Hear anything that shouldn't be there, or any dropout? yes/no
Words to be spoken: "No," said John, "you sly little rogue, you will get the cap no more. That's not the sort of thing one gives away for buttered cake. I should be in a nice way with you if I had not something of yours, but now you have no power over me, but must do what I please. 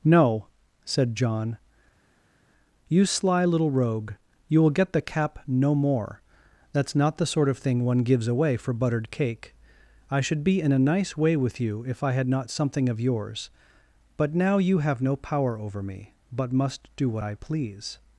no